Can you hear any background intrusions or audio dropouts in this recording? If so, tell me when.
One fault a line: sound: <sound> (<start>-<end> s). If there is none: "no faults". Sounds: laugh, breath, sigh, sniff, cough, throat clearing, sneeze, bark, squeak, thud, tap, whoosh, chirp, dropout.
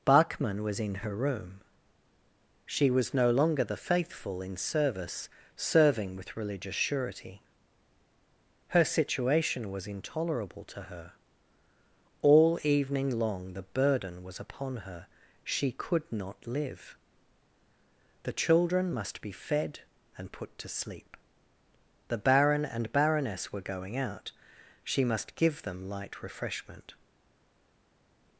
no faults